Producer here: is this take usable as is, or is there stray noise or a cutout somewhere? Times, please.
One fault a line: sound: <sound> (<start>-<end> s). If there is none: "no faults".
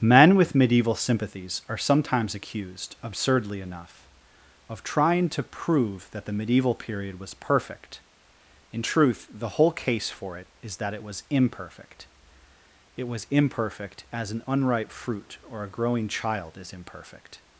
no faults